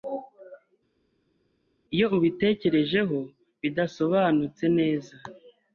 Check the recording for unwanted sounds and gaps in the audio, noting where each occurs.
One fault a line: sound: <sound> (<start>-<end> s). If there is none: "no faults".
no faults